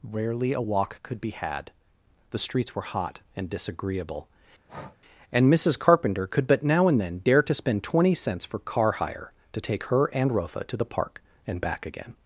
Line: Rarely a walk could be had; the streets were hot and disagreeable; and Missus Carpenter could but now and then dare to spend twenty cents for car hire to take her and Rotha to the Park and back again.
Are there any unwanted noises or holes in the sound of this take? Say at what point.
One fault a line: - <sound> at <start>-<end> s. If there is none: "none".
- breath at 4.7-5.0 s